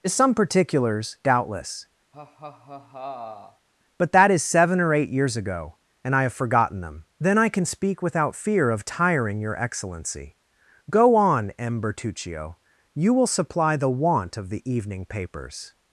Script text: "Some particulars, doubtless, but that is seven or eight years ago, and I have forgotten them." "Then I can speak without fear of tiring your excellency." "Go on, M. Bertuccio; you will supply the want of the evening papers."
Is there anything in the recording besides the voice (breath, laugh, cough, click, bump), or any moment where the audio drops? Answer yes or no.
yes